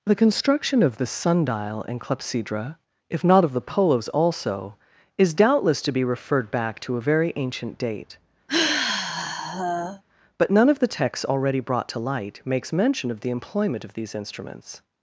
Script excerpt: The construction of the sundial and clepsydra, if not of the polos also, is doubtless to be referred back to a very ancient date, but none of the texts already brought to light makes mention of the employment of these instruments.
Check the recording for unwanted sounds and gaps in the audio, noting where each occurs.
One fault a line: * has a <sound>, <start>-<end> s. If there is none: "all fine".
* has a sigh, 8.5-10.0 s